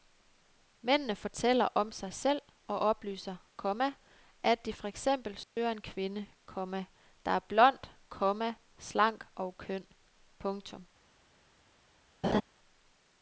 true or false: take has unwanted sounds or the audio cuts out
true